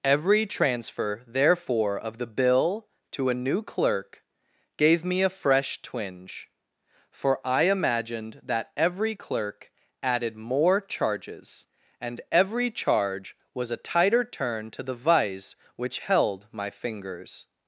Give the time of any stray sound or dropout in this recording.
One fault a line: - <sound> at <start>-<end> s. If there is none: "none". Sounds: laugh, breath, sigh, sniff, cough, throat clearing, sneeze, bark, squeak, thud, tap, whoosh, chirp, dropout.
none